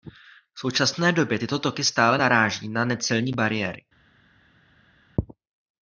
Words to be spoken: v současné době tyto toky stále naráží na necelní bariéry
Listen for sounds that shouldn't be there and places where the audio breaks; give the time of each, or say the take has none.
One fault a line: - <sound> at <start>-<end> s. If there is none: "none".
none